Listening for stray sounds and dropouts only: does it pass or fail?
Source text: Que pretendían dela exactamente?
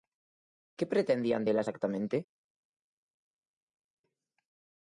pass